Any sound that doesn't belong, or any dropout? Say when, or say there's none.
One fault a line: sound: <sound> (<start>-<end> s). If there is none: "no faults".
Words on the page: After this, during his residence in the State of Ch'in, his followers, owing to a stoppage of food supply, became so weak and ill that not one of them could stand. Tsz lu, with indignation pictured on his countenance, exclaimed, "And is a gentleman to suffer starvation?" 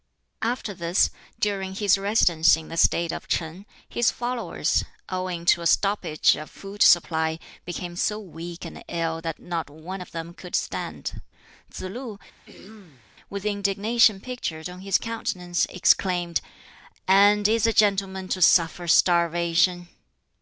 sound: throat clearing (12.5-13.2 s)